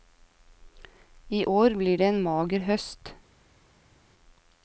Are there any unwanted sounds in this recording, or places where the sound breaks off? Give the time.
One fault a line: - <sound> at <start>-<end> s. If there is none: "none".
none